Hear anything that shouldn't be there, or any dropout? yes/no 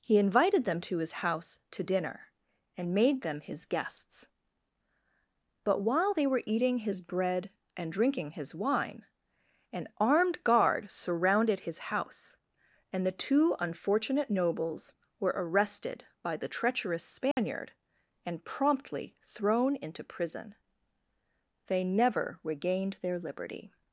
yes